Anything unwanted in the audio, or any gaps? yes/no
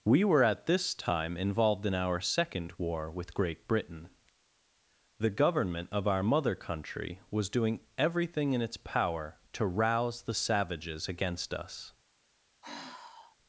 yes